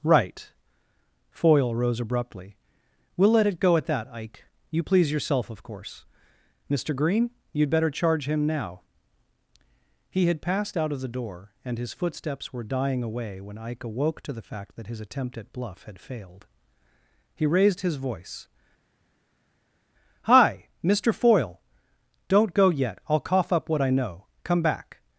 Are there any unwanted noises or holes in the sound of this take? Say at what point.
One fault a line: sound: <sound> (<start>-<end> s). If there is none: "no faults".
no faults